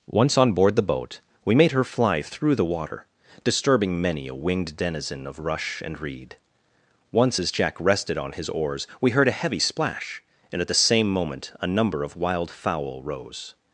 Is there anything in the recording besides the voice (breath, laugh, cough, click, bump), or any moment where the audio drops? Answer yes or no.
no